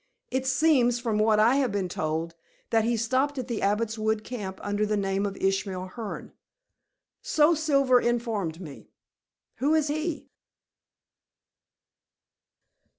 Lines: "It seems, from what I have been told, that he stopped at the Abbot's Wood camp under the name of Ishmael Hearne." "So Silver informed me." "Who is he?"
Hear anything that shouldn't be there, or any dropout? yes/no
no